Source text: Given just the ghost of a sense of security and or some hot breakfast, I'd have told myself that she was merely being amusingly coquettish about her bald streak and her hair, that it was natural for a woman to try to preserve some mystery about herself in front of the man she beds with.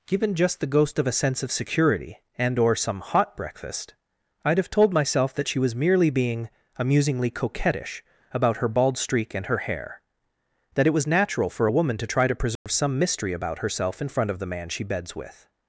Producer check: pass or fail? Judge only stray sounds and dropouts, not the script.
fail